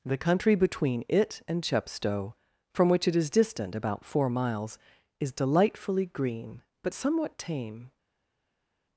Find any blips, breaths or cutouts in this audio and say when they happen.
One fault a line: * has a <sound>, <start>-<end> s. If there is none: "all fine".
all fine